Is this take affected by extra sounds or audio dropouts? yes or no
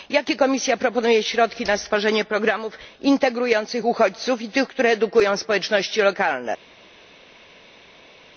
no